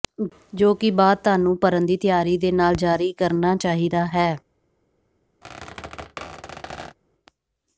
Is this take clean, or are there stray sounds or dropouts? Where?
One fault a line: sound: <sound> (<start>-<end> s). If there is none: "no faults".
sound: squeak (5.4-7.0 s)